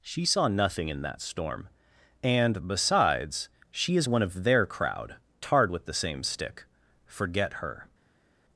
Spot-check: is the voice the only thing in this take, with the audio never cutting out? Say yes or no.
yes